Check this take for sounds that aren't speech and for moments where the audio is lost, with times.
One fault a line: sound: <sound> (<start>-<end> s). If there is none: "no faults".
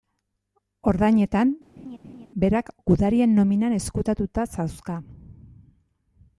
sound: laugh (1.8-2.3 s)